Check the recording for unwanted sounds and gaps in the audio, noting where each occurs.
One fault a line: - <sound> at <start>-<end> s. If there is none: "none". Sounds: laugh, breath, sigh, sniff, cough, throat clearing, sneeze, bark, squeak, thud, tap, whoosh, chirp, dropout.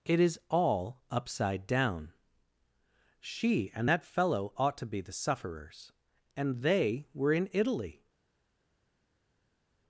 none